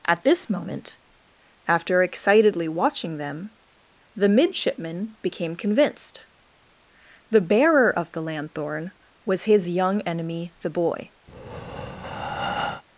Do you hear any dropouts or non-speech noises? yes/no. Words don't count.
yes